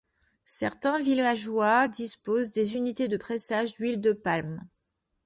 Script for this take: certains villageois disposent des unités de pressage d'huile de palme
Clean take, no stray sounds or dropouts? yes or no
yes